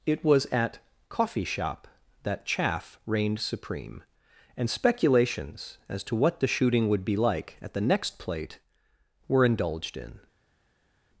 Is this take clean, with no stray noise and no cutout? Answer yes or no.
yes